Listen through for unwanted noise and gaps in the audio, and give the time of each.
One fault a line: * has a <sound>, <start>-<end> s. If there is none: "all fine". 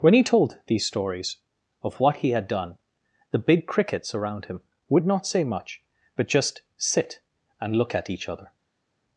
all fine